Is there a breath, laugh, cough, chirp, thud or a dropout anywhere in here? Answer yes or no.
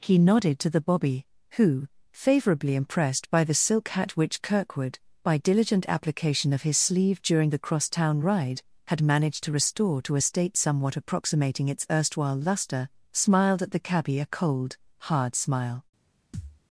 yes